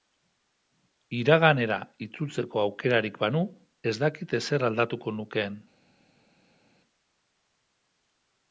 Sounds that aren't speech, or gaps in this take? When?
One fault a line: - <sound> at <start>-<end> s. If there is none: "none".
none